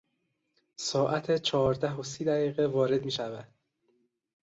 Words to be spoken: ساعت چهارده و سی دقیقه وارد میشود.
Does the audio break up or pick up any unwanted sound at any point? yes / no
no